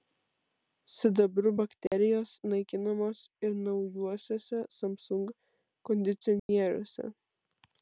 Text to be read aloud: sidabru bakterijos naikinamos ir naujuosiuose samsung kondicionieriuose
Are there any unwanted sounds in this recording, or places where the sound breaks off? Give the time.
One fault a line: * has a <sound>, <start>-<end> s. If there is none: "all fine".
* has a dropout, 1.9-1.9 s
* has a dropout, 6.4-6.5 s